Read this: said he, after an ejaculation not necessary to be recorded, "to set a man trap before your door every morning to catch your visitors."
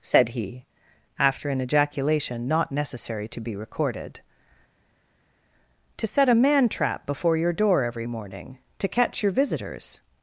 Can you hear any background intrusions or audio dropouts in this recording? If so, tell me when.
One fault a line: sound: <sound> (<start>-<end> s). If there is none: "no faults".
no faults